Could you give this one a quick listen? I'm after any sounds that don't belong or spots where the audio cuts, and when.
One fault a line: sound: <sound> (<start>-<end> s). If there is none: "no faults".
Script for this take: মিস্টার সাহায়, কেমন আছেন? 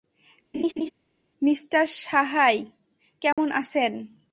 sound: laugh (0.5-0.9 s)
sound: dropout (3.3-3.4 s)